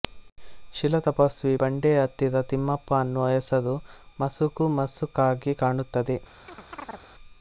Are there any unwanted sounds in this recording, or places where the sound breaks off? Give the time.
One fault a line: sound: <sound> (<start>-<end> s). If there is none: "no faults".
sound: chirp (6.5-7.1 s)